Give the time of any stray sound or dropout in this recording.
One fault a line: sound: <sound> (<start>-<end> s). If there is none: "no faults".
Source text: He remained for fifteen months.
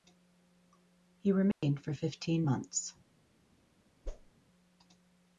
sound: dropout (1.5-1.6 s)
sound: whoosh (4.0-4.3 s)